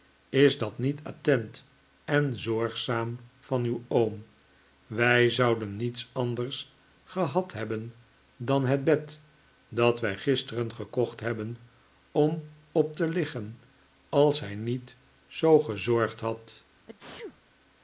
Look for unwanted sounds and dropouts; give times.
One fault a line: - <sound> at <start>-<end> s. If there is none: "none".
- sneeze at 16.9-17.4 s